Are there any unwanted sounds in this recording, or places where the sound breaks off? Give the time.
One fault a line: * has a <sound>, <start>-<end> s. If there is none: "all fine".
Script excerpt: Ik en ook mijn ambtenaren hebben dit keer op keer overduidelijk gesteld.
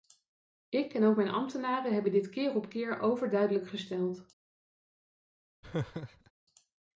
* has a laugh, 5.6-6.3 s